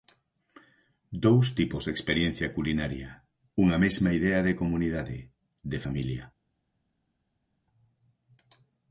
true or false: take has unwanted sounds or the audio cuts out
false